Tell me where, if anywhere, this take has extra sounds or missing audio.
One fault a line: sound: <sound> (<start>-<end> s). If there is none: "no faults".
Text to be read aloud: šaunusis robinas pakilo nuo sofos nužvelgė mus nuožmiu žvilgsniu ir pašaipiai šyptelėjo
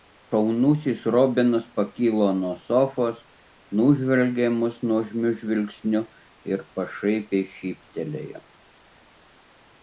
no faults